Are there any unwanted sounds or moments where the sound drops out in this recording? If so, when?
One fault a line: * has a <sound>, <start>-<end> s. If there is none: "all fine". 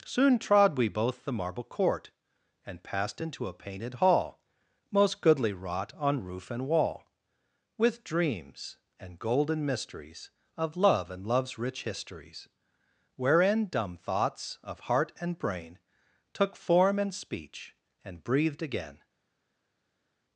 all fine